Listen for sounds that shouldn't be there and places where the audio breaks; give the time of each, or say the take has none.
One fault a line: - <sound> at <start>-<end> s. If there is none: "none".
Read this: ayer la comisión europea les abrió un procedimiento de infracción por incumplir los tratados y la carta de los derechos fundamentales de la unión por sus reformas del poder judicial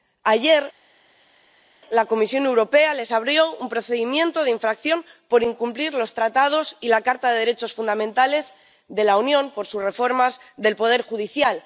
none